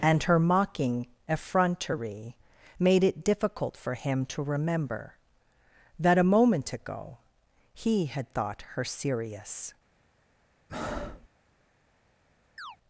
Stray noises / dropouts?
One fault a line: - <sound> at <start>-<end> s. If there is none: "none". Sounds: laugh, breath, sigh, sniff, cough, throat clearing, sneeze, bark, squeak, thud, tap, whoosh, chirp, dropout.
- breath at 10.7-11.3 s
- chirp at 12.6-12.8 s